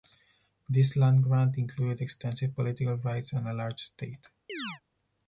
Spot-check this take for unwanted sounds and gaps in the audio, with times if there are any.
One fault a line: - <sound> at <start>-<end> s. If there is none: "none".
- chirp at 4.5-4.8 s